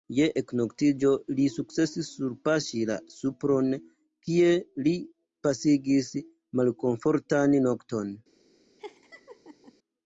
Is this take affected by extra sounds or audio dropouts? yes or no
yes